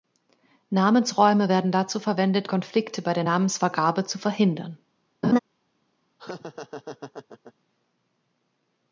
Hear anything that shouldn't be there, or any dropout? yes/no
yes